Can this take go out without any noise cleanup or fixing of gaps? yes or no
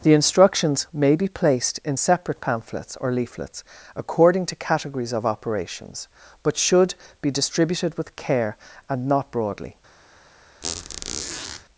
no